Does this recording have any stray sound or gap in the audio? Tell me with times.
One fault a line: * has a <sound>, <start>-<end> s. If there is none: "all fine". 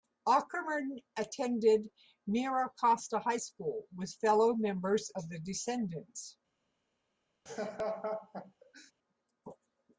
* has a laugh, 7.5-8.9 s